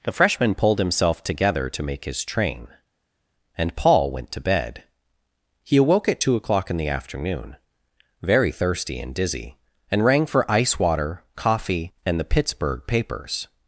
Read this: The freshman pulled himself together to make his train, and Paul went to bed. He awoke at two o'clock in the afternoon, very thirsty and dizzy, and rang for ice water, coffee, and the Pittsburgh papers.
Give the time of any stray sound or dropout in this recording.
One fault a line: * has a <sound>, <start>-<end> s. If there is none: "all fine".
all fine